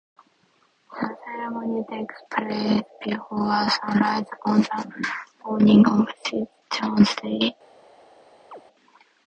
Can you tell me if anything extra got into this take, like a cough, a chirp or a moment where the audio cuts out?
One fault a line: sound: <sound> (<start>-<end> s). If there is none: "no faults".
sound: chirp (8.5-8.6 s)